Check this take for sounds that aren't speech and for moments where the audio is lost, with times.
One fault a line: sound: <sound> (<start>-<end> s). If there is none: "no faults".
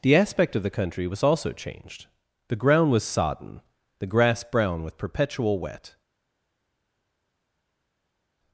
no faults